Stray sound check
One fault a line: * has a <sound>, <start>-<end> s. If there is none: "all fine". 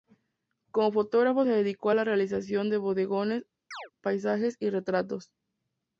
* has a chirp, 3.7-3.9 s